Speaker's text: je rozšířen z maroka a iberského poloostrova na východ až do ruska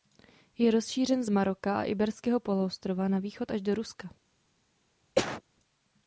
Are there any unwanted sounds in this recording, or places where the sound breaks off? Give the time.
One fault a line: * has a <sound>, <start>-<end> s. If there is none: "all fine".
* has a cough, 5.2-5.4 s